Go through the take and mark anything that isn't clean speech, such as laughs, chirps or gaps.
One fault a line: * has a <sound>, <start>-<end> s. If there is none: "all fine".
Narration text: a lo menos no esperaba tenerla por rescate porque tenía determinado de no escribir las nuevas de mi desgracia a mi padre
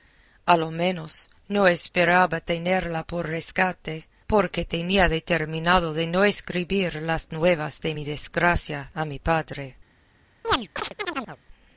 * has a chirp, 10.4-11.4 s